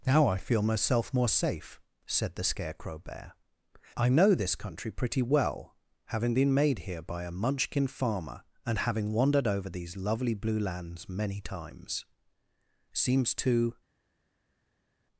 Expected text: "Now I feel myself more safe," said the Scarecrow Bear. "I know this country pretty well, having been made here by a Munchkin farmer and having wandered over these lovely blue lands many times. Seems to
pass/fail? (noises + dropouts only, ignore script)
pass